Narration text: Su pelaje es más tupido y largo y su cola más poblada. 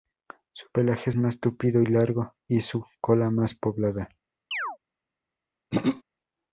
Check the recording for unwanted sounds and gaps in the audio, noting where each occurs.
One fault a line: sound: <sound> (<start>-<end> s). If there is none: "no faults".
sound: chirp (4.5-4.8 s)
sound: throat clearing (5.7-6.0 s)